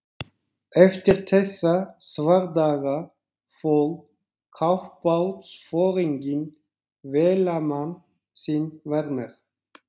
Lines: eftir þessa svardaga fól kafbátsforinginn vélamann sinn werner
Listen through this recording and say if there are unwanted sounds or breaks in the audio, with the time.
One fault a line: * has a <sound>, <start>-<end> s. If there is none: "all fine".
all fine